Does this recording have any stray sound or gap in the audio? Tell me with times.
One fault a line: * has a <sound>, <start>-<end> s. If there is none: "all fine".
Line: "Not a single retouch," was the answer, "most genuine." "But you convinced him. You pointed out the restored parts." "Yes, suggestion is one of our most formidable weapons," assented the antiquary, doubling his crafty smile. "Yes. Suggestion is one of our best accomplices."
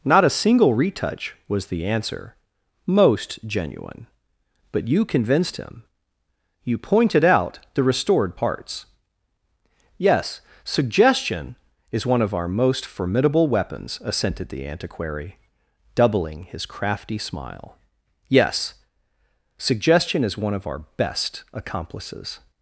all fine